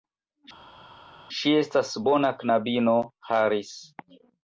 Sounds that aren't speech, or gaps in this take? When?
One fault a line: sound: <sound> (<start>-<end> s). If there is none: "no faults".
no faults